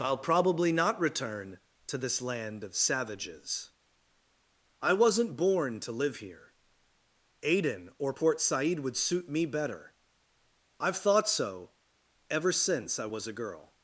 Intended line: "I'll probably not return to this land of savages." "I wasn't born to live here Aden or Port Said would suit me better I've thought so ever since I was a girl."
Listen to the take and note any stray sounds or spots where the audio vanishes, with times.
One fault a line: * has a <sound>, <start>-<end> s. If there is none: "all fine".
all fine